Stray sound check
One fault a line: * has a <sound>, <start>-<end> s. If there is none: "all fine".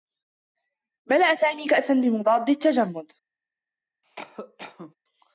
* has a cough, 4.0-5.0 s